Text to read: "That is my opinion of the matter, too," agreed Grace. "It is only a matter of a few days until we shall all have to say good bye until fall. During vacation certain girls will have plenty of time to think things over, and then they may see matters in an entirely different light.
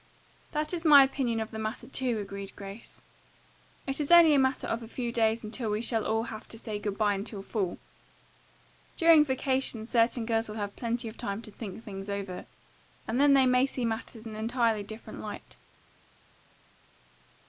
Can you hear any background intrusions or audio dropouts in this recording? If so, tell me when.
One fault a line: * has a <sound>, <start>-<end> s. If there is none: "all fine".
all fine